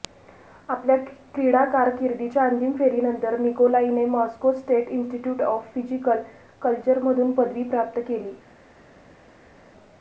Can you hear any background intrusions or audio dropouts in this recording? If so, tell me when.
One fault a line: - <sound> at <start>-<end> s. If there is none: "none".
none